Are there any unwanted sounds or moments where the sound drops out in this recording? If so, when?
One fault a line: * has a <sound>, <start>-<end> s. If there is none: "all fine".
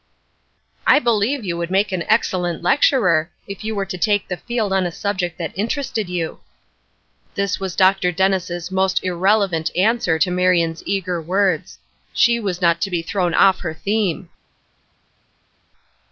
all fine